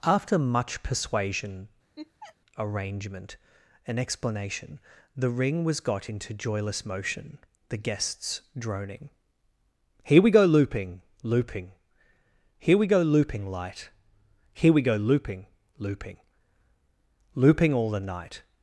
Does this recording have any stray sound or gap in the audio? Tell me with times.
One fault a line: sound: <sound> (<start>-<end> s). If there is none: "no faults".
sound: laugh (2.0-2.4 s)